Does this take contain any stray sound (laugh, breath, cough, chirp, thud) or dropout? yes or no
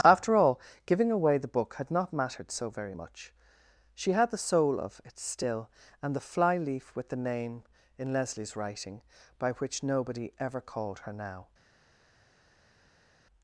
no